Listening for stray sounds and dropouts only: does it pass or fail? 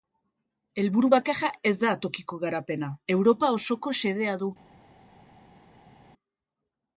pass